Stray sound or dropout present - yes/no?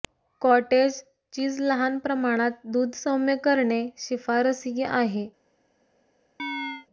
yes